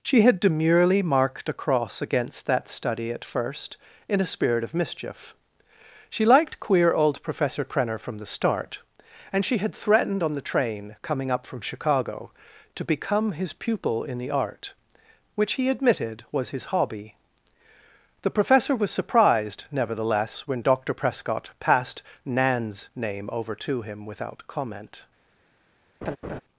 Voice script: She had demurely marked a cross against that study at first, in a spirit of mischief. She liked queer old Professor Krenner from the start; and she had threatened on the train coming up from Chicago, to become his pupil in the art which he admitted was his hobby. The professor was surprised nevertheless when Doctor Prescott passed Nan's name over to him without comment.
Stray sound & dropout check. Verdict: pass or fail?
fail